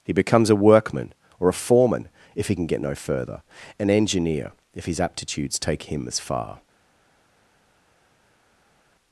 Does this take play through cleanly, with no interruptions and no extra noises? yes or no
yes